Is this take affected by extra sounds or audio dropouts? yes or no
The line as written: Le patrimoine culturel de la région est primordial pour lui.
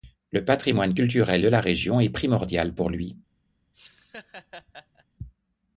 yes